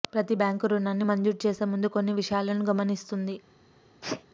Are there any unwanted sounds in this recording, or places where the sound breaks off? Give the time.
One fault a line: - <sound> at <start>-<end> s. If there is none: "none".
- sneeze at 4.0-4.2 s